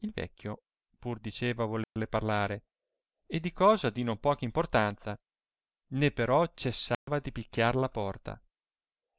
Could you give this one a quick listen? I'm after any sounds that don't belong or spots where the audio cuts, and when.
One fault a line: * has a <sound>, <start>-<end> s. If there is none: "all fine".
* has a dropout, 1.8-2.0 s
* has a dropout, 6.9-7.1 s